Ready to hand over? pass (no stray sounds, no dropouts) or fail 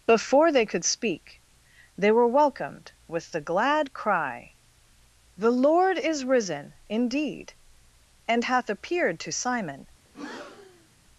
fail